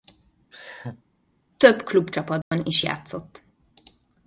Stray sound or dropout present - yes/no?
yes